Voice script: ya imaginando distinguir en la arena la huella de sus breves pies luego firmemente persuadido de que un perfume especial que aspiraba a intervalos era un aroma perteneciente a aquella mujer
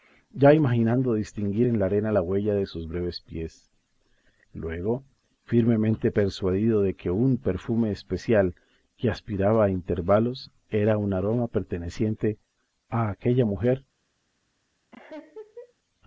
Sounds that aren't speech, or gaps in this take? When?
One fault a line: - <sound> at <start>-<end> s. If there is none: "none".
- laugh at 14.9-15.7 s